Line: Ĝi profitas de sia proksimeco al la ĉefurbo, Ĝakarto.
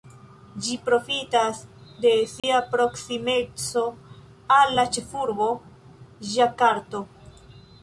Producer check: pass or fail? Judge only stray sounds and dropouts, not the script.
fail